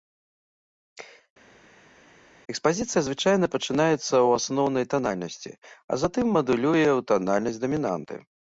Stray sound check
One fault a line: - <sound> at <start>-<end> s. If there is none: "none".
none